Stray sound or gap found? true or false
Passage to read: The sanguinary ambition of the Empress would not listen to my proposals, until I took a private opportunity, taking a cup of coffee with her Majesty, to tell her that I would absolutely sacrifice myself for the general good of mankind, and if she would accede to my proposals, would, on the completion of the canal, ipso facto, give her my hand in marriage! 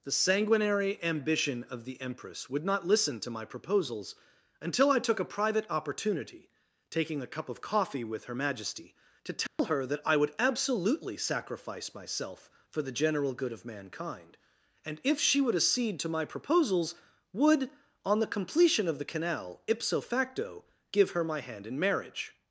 true